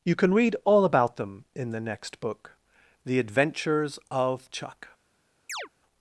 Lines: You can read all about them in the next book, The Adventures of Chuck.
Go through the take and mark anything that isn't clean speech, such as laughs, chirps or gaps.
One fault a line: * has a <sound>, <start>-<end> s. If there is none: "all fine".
* has a chirp, 5.5-5.7 s